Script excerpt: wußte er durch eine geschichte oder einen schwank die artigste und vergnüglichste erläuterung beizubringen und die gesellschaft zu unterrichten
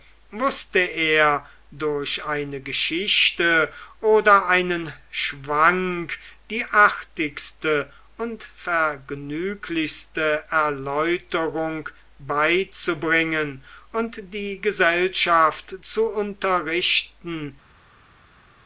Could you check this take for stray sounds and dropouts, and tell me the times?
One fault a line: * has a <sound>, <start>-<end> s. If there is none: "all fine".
all fine